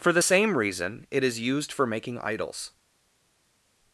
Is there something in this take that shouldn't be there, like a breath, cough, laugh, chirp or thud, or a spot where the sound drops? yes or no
no